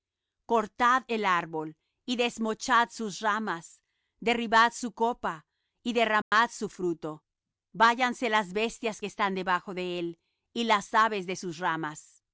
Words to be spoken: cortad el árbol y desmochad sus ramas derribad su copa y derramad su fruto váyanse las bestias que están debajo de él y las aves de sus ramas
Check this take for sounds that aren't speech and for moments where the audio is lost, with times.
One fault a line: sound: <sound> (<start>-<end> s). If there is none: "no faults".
sound: dropout (6.2-6.3 s)